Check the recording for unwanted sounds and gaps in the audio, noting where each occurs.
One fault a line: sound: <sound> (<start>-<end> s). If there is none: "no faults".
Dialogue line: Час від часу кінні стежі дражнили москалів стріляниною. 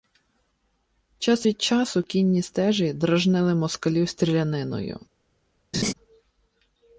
sound: laugh (5.7-5.9 s)